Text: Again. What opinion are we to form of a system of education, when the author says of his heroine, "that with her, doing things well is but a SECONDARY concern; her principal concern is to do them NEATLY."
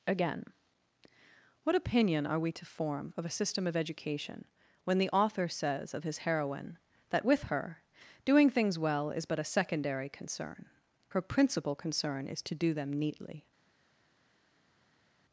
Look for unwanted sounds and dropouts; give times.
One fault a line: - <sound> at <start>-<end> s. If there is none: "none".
none